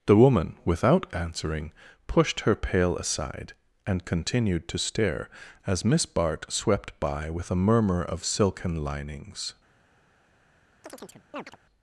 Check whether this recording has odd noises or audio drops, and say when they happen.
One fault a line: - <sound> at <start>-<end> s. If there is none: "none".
- chirp at 10.8-11.6 s